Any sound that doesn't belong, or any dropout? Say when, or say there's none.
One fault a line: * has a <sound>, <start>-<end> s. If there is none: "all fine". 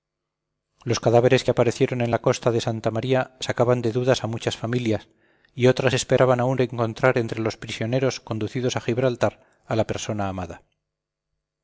all fine